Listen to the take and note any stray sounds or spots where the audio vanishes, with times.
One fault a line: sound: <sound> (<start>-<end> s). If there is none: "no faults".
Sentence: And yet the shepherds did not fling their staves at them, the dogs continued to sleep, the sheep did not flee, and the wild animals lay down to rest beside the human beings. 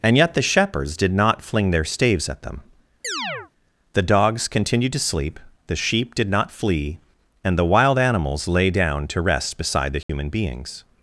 sound: chirp (3.0-3.5 s)
sound: dropout (10.0-10.1 s)